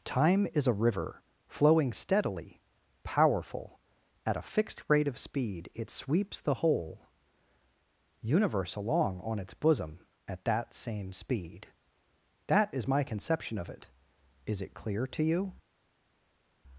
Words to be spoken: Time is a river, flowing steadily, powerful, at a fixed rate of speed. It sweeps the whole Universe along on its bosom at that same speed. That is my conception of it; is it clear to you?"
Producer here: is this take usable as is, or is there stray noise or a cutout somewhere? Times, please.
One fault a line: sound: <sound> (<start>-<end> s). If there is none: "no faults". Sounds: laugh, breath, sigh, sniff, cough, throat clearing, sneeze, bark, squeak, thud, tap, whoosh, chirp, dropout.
no faults